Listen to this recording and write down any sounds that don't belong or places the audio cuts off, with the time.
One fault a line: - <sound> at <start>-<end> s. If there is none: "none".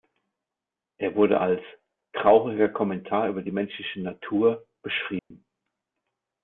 - dropout at 5.2-5.3 s